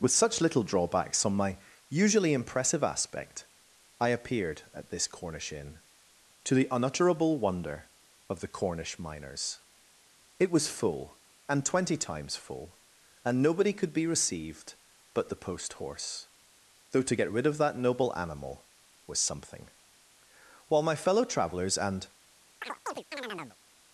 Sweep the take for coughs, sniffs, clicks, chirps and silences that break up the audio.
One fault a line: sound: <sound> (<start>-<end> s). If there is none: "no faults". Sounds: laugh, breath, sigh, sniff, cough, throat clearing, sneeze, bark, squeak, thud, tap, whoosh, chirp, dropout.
sound: chirp (22.6-23.6 s)